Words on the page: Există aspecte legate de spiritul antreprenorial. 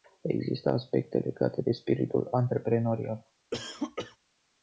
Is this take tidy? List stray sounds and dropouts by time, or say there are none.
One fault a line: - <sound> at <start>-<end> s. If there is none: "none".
- cough at 3.5-4.2 s